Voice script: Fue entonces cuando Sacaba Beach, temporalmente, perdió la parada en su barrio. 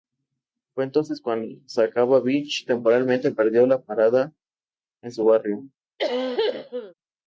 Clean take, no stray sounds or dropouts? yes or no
no